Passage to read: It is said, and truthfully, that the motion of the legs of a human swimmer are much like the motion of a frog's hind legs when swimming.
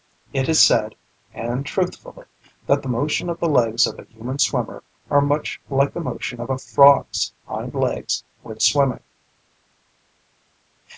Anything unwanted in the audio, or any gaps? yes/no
no